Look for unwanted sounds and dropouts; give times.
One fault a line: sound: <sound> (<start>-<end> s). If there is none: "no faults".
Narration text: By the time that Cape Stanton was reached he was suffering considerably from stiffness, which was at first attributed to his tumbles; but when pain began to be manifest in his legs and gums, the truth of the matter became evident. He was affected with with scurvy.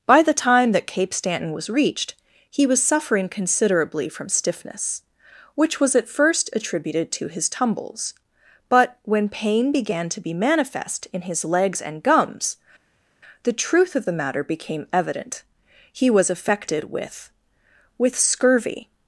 no faults